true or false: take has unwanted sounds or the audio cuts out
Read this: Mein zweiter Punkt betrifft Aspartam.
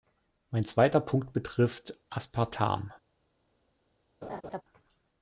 true